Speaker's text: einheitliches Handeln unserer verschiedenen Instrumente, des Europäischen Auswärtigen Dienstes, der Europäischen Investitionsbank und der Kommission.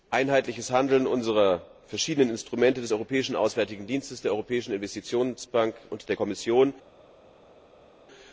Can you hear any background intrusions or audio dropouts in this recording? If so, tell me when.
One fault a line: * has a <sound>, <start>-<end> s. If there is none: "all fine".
all fine